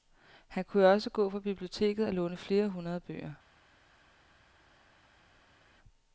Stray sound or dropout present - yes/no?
no